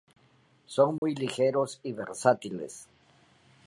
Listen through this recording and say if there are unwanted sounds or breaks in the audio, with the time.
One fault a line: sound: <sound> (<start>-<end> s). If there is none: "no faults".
sound: dropout (1.0-1.0 s)